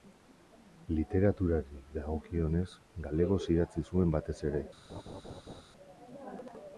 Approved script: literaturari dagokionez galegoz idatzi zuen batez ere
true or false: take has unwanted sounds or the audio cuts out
true